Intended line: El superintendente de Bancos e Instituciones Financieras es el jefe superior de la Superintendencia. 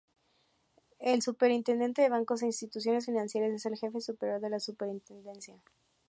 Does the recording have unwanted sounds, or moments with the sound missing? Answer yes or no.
no